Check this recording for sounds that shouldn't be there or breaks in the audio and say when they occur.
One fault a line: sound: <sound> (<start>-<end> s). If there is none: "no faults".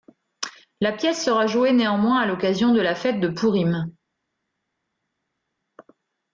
no faults